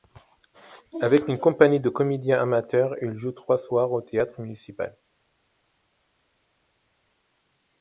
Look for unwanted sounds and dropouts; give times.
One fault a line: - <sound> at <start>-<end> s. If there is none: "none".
none